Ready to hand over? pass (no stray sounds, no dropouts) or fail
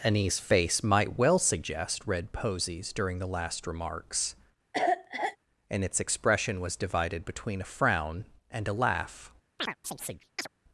fail